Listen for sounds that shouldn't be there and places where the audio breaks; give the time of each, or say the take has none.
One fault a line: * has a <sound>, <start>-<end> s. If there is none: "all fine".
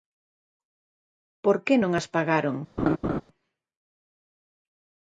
* has a laugh, 2.8-3.2 s